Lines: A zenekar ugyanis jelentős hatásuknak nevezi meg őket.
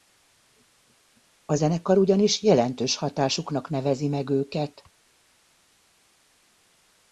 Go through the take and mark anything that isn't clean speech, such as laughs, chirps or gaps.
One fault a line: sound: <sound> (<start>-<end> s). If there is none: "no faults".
no faults